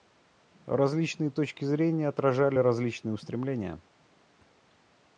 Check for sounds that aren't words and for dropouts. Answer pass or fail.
pass